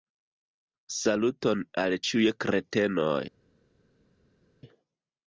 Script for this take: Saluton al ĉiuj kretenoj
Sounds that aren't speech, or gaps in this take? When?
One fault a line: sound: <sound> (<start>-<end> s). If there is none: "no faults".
no faults